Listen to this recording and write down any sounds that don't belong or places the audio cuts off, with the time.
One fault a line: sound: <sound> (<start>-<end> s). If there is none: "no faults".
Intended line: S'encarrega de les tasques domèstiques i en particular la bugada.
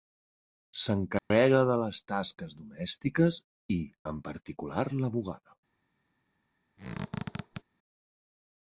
sound: dropout (1.2-1.3 s)
sound: squeak (6.8-7.6 s)